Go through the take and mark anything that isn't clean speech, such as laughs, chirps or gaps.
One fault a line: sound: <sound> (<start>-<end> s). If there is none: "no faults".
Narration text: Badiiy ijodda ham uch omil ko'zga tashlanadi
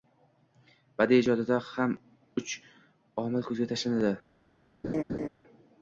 sound: laugh (4.8-5.3 s)